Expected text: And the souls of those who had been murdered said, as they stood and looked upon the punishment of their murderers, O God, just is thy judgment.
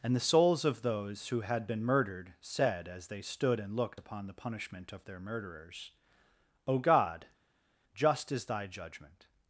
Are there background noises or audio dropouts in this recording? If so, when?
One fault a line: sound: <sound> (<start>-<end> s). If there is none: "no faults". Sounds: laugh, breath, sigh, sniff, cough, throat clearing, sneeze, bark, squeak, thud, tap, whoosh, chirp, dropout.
no faults